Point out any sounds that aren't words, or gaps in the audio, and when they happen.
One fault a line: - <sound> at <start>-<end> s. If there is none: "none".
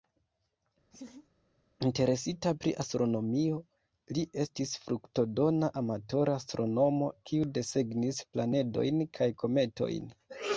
- laugh at 0.9-1.3 s